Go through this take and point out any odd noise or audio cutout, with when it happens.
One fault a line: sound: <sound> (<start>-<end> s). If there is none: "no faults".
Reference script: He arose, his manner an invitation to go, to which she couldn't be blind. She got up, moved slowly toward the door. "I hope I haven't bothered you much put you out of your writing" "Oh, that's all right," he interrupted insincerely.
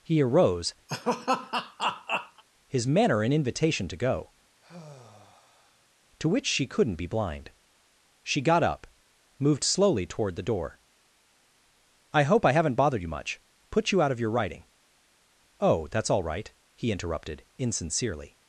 sound: laugh (0.9-2.4 s)
sound: sigh (4.6-5.9 s)